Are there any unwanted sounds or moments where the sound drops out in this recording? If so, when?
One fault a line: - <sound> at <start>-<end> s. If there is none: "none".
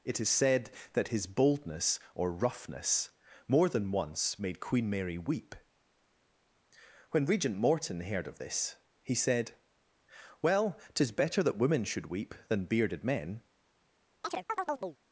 - chirp at 14.2-15.0 s